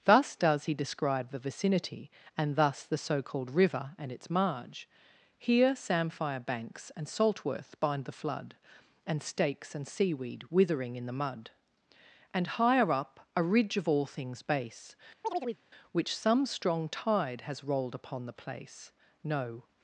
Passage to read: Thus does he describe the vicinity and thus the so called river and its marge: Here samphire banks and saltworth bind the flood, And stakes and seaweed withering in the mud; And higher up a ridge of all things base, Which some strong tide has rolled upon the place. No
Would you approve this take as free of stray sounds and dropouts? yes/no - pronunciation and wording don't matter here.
no